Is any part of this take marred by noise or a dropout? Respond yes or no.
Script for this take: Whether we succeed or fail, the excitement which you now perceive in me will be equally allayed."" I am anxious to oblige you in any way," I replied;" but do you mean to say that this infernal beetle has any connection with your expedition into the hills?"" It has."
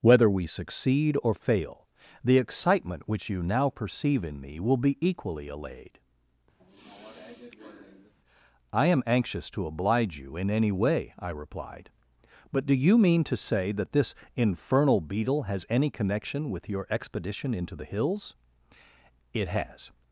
yes